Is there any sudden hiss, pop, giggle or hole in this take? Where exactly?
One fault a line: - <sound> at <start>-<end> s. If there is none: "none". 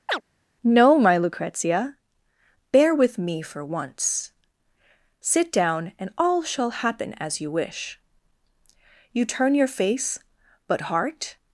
- chirp at 0.1-0.2 s